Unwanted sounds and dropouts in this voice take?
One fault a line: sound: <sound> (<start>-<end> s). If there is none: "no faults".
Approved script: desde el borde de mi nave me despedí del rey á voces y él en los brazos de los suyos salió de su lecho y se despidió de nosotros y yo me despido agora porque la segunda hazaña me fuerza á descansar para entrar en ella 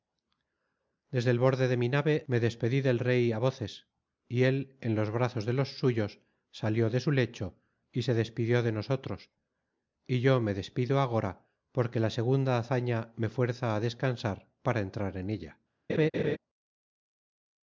sound: laugh (15.9-16.4 s)